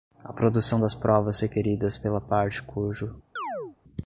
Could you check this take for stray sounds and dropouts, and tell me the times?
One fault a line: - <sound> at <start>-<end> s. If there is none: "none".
- chirp at 3.4-3.8 s